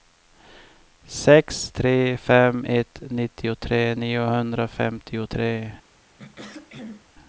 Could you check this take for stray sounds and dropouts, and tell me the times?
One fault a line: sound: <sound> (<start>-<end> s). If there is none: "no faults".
sound: throat clearing (6.2-7.1 s)